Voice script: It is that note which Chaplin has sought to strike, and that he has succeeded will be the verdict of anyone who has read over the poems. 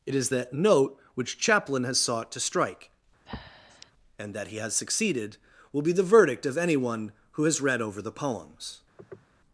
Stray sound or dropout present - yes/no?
yes